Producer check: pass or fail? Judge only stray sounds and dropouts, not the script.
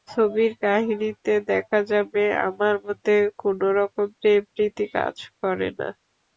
pass